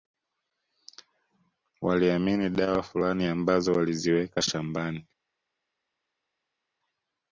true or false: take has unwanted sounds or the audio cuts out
false